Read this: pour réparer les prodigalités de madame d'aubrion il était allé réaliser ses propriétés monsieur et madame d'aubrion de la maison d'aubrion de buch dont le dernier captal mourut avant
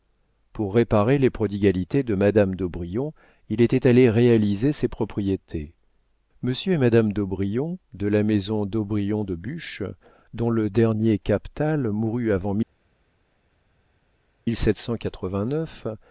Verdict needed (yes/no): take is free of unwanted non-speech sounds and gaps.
yes